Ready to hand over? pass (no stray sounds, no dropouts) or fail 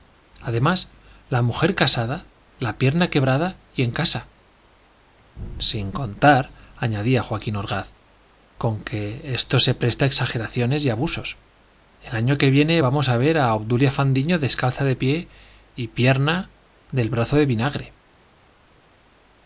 pass